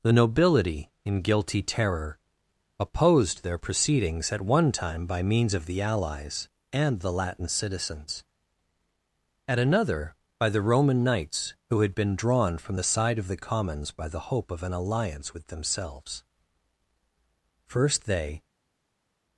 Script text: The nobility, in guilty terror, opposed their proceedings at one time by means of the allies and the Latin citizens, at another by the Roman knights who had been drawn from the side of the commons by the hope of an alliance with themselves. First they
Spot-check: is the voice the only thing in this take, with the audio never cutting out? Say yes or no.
yes